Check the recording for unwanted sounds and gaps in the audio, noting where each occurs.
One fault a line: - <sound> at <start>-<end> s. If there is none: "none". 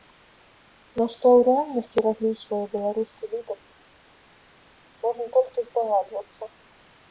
none